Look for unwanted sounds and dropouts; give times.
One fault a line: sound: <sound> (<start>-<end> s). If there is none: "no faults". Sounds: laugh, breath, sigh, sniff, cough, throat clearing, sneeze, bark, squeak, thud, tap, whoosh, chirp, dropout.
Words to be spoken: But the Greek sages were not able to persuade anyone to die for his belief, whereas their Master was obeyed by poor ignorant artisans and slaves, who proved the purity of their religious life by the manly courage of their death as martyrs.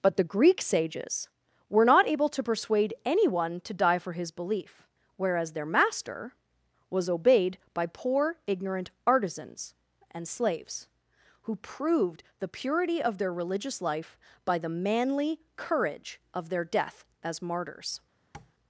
sound: tap (18.3-18.5 s)